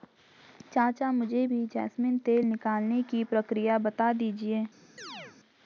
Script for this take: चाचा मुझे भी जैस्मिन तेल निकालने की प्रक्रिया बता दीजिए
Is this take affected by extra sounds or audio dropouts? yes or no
yes